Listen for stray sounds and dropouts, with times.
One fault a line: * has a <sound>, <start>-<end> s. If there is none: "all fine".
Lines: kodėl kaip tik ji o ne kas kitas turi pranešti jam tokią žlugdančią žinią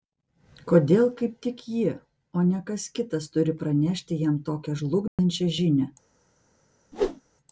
* has a dropout, 5.1-5.2 s
* has a whoosh, 6.9-7.2 s